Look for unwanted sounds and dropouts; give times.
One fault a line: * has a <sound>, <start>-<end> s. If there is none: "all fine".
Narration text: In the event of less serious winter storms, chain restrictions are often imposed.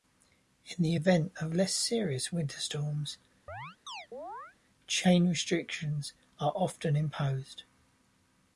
* has a chirp, 3.5-4.6 s